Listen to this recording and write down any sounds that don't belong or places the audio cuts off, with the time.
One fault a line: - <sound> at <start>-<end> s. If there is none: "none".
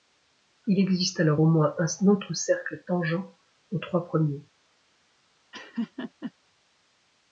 - laugh at 5.5-6.3 s